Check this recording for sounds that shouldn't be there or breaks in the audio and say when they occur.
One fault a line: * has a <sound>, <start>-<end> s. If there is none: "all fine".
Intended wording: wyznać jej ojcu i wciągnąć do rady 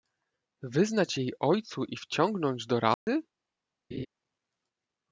* has a dropout, 2.9-3.1 s
* has a laugh, 3.9-4.1 s